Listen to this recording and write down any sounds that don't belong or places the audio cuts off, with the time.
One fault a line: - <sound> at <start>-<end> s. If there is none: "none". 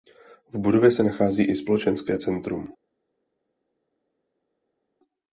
none